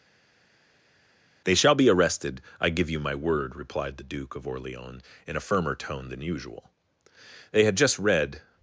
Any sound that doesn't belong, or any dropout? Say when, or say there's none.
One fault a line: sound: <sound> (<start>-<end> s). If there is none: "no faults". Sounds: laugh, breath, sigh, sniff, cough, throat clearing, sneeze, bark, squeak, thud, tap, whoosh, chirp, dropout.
no faults